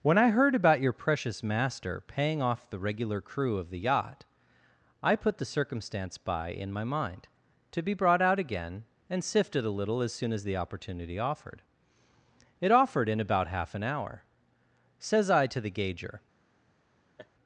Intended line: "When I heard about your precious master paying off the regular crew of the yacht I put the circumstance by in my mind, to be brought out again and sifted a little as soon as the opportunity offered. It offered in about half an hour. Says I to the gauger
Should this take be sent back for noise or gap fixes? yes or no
yes